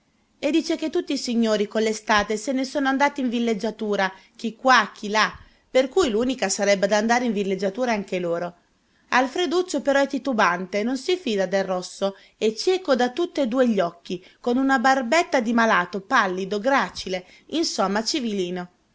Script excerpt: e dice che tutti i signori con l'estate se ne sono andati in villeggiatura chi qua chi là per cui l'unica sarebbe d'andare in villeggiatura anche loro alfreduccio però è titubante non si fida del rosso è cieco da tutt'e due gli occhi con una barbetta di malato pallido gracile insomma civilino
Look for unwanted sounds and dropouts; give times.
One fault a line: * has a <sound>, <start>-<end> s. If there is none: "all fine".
all fine